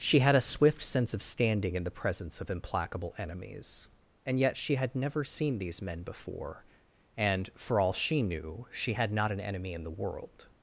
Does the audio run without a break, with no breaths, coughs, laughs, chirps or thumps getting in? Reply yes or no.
yes